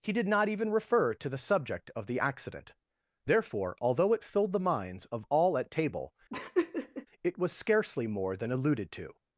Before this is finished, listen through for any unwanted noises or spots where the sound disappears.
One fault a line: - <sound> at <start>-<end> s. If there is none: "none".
- laugh at 6.3-7.1 s